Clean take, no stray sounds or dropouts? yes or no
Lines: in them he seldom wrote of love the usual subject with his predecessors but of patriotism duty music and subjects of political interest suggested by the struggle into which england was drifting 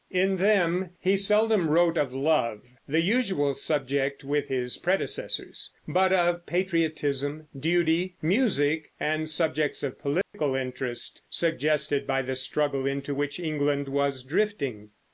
no